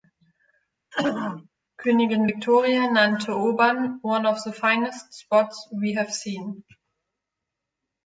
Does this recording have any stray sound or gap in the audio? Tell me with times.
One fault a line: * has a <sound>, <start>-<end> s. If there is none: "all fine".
* has a throat clearing, 0.9-1.5 s